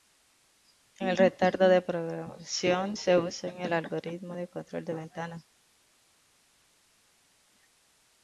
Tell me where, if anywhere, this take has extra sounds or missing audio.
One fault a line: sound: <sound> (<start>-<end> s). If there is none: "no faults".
no faults